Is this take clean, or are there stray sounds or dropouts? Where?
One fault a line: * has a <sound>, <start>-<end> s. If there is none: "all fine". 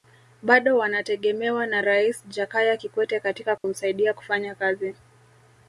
* has a dropout, 3.6-3.6 s